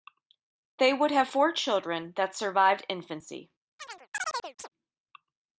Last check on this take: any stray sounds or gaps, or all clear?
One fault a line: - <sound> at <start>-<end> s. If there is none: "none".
- chirp at 3.8-4.7 s